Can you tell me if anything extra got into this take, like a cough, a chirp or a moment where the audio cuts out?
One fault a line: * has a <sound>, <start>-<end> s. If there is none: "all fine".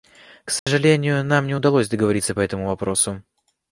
* has a dropout, 0.6-0.7 s